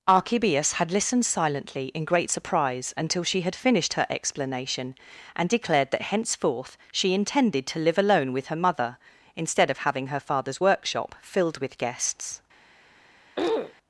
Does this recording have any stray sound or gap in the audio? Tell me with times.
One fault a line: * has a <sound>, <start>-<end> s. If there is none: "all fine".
* has a throat clearing, 13.4-13.7 s